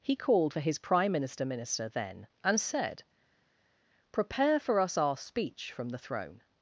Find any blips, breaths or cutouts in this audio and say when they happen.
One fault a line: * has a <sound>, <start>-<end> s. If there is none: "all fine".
all fine